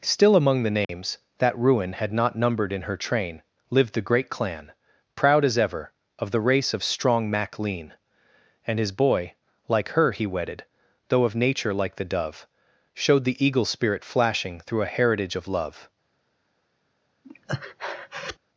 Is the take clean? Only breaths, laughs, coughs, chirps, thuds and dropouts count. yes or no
no